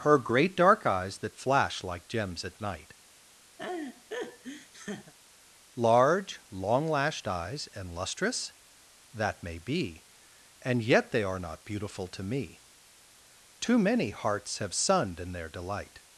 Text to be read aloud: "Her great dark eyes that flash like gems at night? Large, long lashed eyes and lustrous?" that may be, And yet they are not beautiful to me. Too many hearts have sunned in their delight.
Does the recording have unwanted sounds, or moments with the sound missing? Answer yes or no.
yes